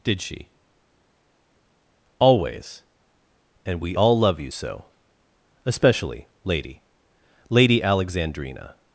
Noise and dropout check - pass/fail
pass